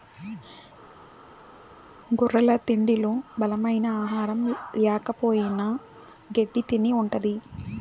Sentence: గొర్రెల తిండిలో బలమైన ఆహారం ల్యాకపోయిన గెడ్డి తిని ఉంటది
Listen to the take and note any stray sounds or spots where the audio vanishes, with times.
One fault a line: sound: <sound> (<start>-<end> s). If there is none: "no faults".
no faults